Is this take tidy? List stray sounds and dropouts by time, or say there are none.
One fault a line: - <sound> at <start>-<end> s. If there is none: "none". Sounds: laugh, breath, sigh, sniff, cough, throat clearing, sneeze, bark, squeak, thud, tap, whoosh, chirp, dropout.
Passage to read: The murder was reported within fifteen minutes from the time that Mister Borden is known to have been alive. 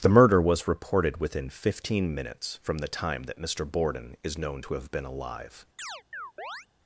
- chirp at 5.8-6.7 s